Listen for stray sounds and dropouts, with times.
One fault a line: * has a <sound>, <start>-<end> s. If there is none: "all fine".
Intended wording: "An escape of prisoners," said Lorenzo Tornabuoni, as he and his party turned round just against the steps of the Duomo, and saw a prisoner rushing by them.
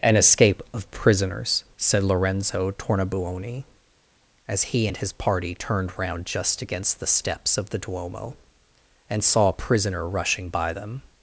all fine